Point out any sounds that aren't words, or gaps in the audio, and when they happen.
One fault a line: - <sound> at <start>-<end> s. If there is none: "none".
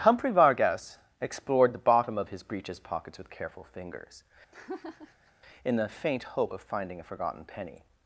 - laugh at 4.5-5.3 s